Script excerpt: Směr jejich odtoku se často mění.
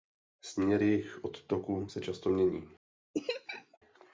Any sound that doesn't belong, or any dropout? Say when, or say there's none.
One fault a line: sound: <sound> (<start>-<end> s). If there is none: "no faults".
sound: laugh (3.1-3.8 s)